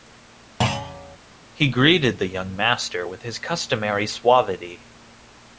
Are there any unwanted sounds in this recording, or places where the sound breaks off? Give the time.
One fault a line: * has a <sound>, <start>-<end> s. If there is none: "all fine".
* has a thud, 0.6-1.2 s